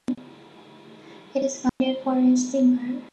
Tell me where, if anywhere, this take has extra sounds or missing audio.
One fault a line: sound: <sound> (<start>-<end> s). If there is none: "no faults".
sound: dropout (1.7-1.8 s)